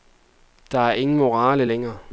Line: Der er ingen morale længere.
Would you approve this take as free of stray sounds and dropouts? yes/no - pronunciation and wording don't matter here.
yes